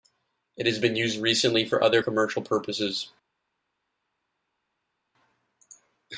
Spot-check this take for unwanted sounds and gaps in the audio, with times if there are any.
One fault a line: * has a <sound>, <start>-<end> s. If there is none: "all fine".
all fine